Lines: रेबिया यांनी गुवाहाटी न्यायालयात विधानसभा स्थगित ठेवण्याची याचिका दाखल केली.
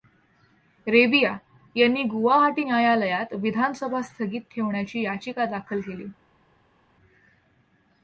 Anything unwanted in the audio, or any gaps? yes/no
no